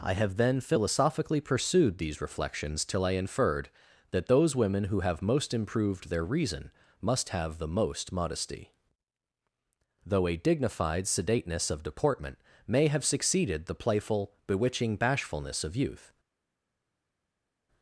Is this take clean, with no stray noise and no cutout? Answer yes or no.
yes